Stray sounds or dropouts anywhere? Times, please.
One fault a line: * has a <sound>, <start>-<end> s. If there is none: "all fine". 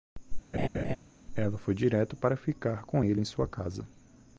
* has a laugh, 0.5-1.0 s